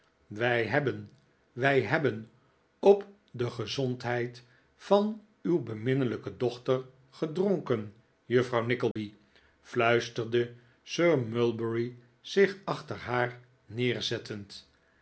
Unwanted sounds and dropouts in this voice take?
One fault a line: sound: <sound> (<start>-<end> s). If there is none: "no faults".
sound: dropout (8.9-9.0 s)